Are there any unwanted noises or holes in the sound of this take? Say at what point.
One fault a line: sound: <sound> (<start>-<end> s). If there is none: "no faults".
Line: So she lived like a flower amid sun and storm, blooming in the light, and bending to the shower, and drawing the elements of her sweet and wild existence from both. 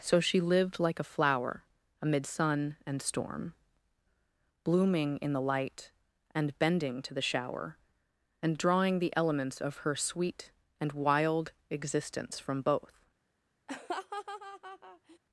sound: laugh (13.7-15.2 s)